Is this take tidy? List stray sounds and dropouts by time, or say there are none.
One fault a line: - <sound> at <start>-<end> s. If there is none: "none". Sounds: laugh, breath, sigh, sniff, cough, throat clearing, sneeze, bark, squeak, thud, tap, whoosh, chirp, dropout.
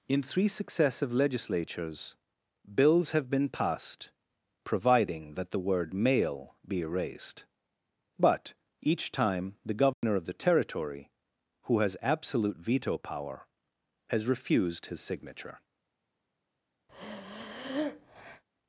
- dropout at 9.9-10.0 s
- breath at 16.9-18.4 s